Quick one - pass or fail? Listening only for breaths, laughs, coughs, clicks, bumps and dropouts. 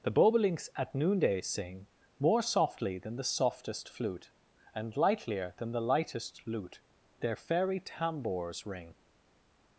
pass